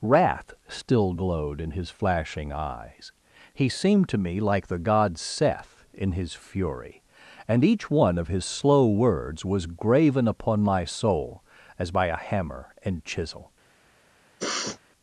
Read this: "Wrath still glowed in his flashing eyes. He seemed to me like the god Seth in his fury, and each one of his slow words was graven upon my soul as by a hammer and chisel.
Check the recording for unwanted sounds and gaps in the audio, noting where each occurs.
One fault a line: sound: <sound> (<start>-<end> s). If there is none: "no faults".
sound: sniff (14.4-14.8 s)